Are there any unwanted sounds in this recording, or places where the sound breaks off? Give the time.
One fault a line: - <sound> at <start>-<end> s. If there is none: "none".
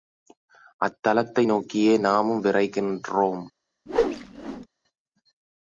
- whoosh at 3.9-4.7 s